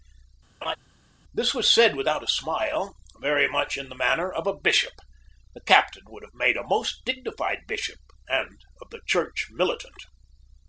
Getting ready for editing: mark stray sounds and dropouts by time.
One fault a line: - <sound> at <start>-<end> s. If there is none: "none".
- laugh at 0.6-0.8 s